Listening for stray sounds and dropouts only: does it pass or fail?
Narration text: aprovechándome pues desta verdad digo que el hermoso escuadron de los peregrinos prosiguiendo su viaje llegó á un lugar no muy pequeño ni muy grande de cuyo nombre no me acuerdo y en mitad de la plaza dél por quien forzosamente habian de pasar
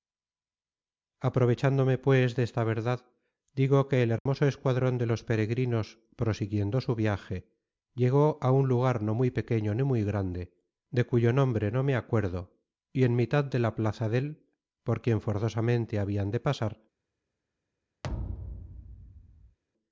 fail